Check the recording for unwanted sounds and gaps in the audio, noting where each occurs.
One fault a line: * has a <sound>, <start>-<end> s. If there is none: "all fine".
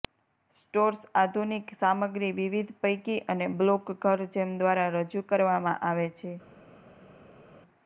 all fine